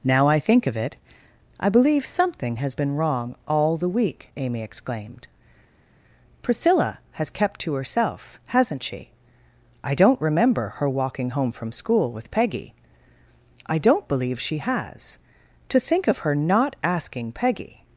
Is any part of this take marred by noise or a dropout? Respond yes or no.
no